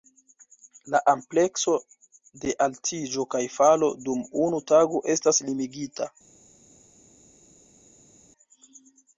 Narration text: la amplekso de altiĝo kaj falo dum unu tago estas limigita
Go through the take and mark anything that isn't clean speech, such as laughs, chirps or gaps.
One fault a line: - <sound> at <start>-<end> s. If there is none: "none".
none